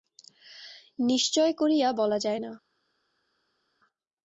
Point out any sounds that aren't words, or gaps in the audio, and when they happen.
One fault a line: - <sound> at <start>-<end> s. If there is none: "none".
none